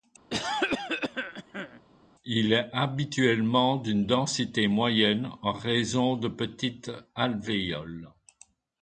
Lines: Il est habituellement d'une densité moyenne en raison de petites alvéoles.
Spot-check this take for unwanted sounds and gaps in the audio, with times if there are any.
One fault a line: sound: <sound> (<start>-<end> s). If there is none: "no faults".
sound: cough (0.3-1.8 s)